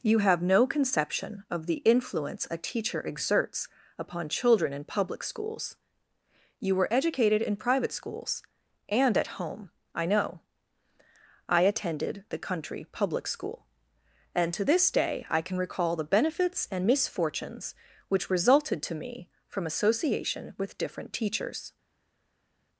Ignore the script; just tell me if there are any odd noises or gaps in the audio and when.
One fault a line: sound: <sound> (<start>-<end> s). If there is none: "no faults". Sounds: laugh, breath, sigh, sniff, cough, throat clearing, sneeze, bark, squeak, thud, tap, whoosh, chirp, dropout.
no faults